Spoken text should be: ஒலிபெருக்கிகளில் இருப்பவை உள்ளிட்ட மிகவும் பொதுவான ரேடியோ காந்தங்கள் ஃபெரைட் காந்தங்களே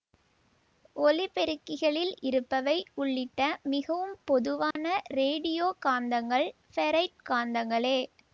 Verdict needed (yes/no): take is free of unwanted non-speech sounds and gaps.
no